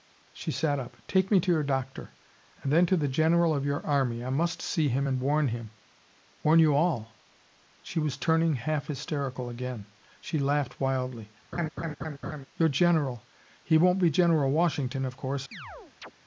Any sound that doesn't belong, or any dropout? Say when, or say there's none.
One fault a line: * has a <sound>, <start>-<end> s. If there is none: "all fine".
* has a laugh, 11.5-12.5 s
* has a chirp, 15.5-16.1 s